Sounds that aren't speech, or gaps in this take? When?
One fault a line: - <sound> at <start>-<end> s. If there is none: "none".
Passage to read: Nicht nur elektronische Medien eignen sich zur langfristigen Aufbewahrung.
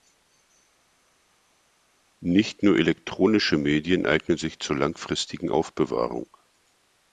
none